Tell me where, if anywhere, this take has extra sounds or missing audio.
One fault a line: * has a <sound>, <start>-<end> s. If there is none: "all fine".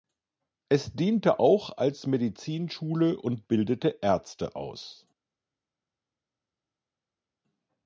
all fine